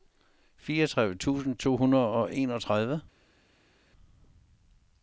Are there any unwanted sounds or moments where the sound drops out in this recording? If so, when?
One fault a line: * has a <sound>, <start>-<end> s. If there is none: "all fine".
all fine